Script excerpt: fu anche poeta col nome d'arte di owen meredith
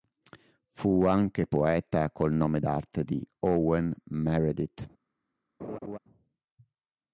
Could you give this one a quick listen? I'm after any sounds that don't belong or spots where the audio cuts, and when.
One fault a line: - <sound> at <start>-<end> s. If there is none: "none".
- laugh at 5.6-6.0 s